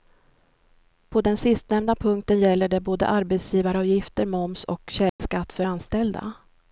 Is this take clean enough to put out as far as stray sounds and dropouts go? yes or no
no